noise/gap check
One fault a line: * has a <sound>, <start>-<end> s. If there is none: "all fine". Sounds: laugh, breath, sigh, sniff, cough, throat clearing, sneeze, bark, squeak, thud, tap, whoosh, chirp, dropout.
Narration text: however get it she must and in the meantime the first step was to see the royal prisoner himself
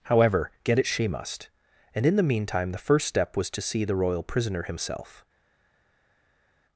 all fine